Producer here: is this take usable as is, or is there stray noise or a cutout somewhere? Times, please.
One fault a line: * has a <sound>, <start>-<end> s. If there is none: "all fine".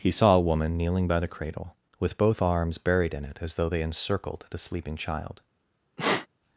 * has a sneeze, 6.0-6.3 s